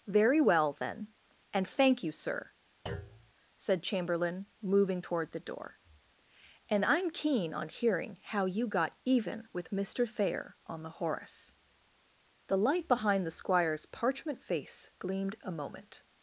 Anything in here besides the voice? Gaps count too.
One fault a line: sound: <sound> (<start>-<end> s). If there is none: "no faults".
sound: thud (2.9-3.3 s)